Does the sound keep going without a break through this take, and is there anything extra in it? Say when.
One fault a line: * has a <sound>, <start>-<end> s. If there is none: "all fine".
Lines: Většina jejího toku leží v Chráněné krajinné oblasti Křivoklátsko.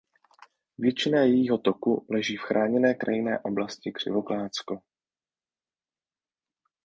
all fine